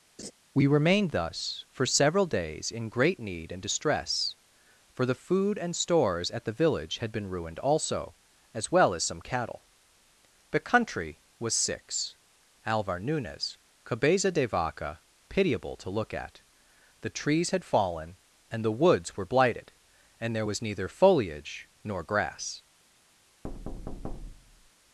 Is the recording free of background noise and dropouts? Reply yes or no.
no